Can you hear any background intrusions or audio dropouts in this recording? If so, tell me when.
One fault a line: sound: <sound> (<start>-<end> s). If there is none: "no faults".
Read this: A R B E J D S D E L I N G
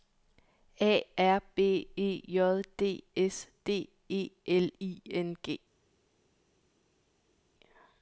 no faults